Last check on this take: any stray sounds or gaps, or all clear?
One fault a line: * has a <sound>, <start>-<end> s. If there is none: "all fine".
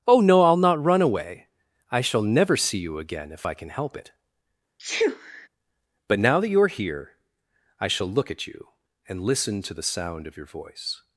* has a sneeze, 4.8-5.5 s